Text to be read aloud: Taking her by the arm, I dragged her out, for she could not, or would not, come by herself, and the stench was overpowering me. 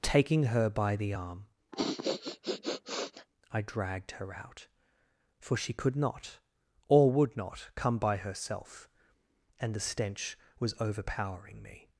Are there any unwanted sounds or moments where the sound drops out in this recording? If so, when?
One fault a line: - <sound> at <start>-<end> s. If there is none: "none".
- sniff at 1.7-3.3 s